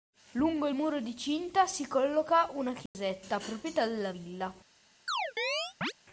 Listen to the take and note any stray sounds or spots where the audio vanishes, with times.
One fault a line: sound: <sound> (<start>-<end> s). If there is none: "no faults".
sound: dropout (2.9-2.9 s)
sound: chirp (5.1-5.9 s)